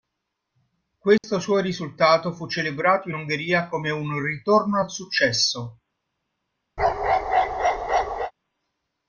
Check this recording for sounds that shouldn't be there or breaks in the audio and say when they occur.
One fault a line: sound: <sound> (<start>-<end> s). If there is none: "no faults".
sound: dropout (1.2-1.2 s)
sound: bark (6.8-8.3 s)